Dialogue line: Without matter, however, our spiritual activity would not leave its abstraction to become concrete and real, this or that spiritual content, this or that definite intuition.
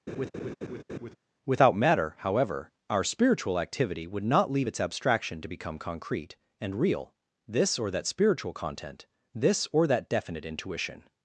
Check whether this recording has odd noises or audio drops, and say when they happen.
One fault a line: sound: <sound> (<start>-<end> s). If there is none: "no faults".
sound: laugh (0.1-1.2 s)